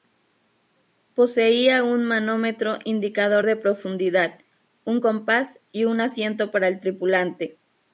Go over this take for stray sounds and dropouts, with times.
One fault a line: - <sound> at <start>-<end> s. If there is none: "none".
none